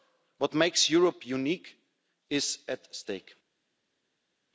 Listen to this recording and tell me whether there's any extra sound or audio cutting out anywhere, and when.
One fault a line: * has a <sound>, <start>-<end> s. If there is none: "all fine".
all fine